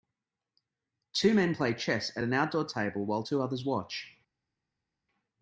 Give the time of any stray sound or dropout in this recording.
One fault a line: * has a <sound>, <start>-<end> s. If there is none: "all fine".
all fine